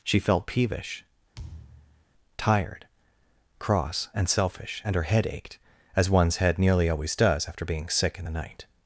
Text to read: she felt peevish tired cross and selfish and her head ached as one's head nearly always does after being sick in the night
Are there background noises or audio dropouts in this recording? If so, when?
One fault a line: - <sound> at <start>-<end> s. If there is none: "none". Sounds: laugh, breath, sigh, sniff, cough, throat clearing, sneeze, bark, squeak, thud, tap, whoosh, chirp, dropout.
- thud at 1.3-2.1 s